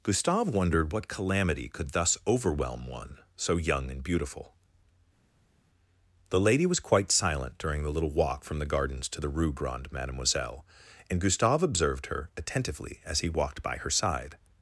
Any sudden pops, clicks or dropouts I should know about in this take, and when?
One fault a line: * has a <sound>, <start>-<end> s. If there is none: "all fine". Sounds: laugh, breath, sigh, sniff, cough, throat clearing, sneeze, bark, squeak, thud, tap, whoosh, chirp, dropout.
all fine